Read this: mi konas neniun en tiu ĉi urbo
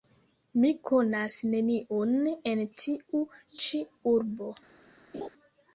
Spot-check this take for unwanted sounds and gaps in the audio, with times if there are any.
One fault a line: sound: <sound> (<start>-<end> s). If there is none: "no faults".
sound: laugh (5.1-5.3 s)